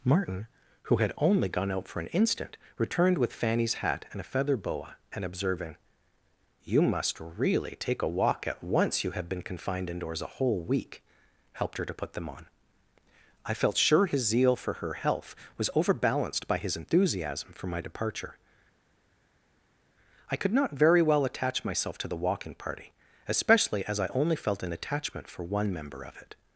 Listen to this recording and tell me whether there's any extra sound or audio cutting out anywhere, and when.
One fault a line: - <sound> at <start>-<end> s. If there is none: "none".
none